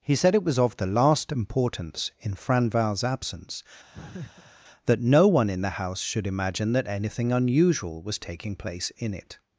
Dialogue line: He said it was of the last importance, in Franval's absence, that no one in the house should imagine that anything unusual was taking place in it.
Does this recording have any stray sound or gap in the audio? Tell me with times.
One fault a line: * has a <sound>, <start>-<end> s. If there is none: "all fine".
* has a laugh, 3.9-4.5 s